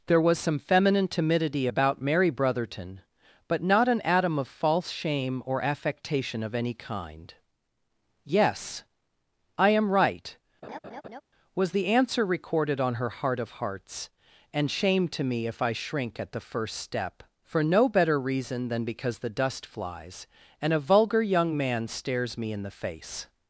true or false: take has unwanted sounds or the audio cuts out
true